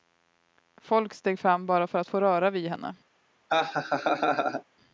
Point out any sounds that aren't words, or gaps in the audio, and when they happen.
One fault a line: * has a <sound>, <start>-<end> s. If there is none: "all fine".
* has a laugh, 3.5-4.6 s